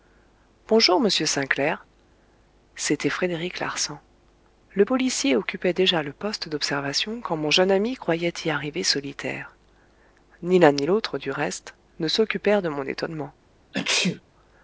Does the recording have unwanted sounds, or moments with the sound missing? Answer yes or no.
yes